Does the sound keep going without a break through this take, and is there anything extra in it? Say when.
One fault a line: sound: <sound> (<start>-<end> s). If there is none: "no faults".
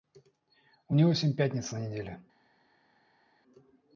no faults